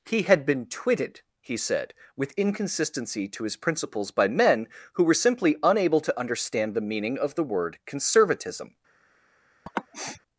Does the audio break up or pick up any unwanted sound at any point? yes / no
yes